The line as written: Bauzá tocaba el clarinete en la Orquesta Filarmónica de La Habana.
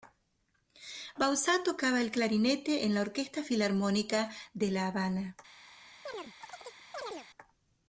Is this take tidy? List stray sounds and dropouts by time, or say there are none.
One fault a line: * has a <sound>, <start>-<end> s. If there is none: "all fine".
* has a chirp, 6.1-7.3 s